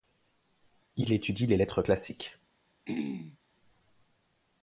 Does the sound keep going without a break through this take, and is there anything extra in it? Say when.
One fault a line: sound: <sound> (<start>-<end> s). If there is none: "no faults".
sound: throat clearing (2.9-3.4 s)